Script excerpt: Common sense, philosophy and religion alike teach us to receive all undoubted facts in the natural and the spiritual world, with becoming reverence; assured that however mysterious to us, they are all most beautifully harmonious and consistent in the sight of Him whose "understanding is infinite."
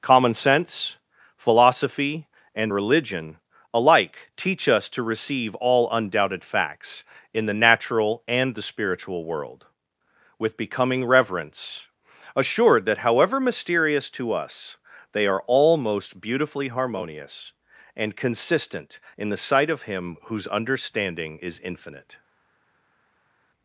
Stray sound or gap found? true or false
false